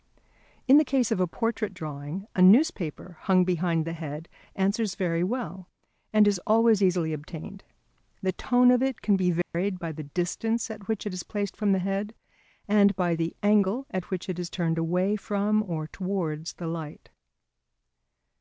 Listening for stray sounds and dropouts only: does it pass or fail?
fail